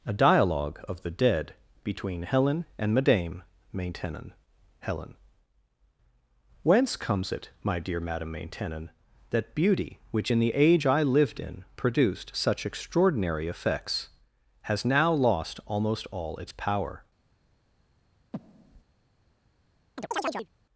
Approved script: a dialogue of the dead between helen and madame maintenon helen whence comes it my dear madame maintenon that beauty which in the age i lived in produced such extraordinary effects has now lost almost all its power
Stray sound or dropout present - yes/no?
yes